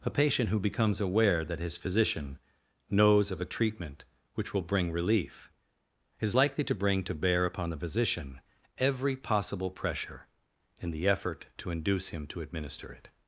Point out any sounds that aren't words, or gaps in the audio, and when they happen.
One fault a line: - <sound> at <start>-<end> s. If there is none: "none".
none